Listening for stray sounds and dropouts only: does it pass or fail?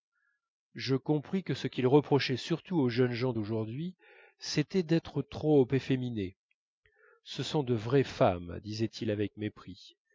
pass